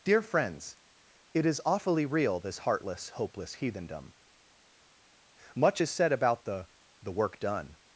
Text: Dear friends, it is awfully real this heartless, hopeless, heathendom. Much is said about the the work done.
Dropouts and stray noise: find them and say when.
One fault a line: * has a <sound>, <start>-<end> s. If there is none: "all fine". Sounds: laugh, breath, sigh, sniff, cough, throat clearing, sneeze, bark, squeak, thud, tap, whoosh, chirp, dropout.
all fine